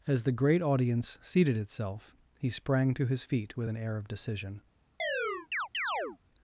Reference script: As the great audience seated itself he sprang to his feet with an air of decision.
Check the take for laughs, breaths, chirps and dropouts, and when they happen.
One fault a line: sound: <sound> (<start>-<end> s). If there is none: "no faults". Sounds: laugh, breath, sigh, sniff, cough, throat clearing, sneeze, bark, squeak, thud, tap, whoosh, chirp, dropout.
sound: chirp (5.0-6.2 s)